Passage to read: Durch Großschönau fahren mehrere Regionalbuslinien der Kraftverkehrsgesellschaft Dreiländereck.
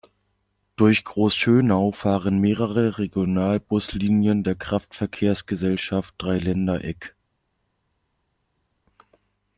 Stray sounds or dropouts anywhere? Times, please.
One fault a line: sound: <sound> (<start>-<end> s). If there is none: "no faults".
no faults